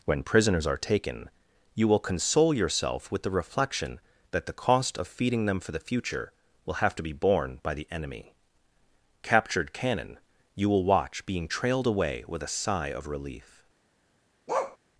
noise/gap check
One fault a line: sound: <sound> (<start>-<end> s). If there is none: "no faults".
sound: bark (14.5-14.8 s)